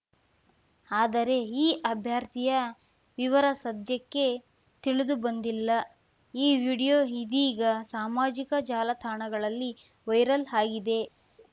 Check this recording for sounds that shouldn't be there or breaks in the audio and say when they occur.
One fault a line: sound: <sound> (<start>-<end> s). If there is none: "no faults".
no faults